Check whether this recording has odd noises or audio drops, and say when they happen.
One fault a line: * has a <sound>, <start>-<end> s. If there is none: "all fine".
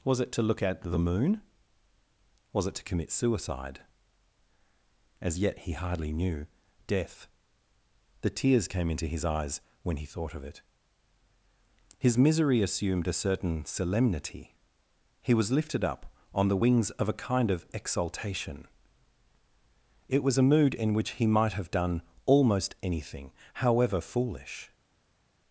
all fine